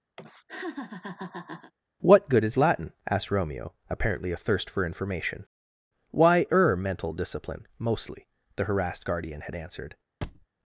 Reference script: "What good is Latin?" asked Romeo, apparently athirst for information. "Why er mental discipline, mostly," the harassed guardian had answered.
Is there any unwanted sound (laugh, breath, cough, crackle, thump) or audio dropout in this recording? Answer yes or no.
yes